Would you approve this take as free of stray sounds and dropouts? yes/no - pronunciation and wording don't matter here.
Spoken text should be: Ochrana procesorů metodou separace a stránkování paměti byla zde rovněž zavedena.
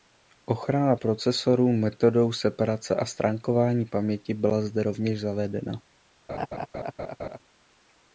no